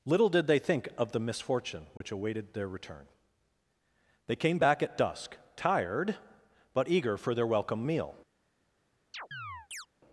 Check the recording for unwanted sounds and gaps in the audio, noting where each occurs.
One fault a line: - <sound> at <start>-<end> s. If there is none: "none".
- dropout at 2.0-2.0 s
- chirp at 9.1-9.9 s